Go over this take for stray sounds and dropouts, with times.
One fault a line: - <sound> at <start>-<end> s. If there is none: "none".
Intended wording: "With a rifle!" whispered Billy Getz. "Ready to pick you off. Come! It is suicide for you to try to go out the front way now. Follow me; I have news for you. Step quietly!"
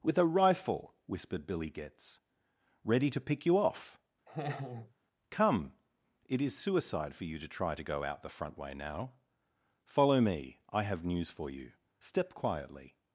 - laugh at 4.3-4.9 s